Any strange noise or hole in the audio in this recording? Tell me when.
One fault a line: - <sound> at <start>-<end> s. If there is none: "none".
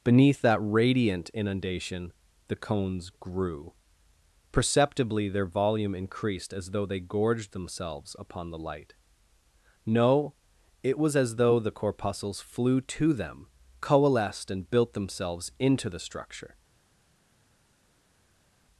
none